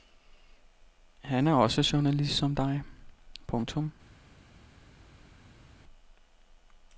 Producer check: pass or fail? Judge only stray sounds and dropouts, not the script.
pass